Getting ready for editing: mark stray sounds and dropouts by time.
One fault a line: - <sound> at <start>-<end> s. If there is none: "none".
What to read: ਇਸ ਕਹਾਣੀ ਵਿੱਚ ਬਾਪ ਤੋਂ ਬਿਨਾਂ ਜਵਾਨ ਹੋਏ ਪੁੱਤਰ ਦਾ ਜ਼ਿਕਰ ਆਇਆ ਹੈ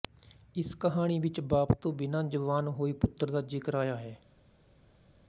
none